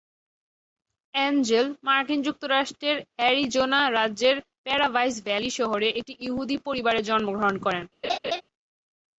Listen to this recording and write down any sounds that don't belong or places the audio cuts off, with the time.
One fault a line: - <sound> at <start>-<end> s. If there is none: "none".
- laugh at 8.0-8.4 s